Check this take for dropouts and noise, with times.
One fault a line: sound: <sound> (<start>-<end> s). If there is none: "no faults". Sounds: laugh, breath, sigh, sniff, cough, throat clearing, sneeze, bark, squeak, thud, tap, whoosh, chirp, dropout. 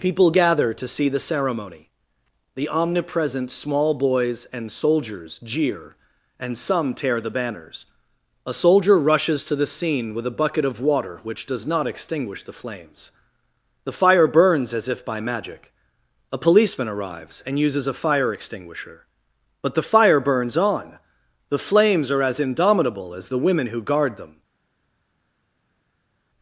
no faults